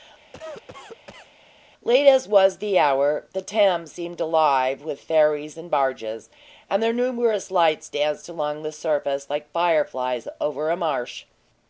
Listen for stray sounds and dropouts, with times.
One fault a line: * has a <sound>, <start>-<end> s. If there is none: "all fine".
* has a cough, 0.3-1.3 s